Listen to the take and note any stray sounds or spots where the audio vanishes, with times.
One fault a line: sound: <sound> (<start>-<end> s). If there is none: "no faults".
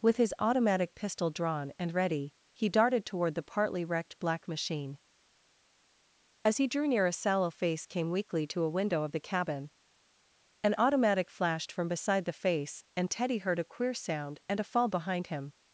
no faults